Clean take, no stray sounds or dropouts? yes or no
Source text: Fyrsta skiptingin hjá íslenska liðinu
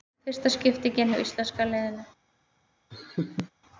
no